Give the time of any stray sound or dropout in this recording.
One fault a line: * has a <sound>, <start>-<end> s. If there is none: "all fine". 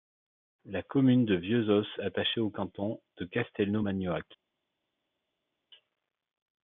all fine